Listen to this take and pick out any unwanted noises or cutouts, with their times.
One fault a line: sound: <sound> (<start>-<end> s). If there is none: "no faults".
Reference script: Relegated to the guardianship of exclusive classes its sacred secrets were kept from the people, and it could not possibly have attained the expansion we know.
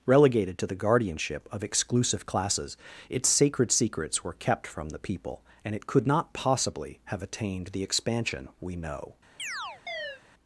sound: chirp (9.4-10.2 s)